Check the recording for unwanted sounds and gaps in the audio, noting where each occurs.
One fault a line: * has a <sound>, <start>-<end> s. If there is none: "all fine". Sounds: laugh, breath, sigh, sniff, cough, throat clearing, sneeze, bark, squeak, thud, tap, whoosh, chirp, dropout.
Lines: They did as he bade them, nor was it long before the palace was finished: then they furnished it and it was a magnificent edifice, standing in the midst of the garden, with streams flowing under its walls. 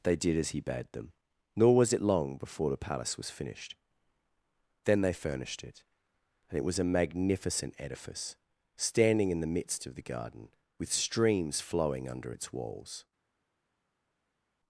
all fine